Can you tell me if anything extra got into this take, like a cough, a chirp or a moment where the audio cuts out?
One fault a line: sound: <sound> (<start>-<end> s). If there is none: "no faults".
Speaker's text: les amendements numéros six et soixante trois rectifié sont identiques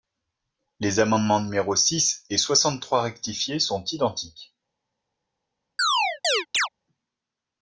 sound: chirp (5.8-6.7 s)